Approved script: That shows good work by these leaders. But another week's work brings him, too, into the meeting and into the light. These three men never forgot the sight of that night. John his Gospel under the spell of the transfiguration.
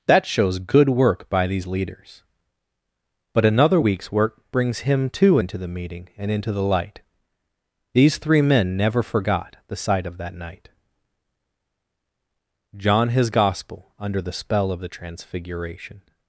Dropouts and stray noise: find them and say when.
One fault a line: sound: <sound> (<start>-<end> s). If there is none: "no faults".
no faults